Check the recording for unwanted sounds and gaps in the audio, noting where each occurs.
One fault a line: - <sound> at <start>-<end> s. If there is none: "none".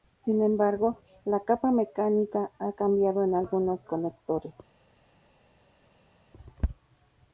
none